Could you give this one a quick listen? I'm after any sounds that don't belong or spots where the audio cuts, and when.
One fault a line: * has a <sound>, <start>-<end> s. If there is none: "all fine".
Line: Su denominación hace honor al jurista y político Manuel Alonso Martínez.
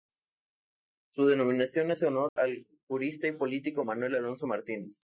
* has a dropout, 2.3-2.4 s